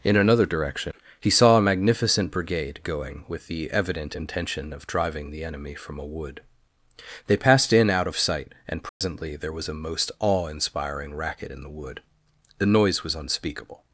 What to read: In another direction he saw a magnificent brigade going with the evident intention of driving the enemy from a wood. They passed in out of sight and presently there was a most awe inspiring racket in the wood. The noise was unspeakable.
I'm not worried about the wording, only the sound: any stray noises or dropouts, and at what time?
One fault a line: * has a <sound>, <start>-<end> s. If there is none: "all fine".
* has a dropout, 8.9-9.0 s